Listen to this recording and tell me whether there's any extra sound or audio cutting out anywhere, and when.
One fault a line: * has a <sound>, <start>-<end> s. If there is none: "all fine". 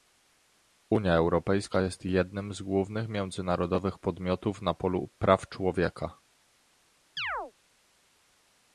* has a chirp, 7.2-7.5 s